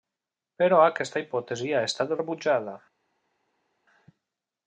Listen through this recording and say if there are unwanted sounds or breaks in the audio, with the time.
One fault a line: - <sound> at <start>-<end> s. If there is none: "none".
none